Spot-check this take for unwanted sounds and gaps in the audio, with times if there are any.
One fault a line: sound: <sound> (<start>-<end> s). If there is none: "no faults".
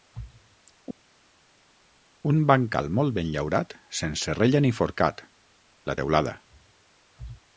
no faults